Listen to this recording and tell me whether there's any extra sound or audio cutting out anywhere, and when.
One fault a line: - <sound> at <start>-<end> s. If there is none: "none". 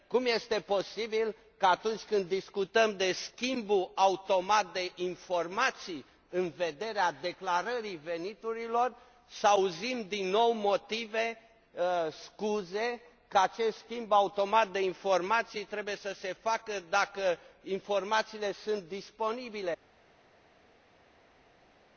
none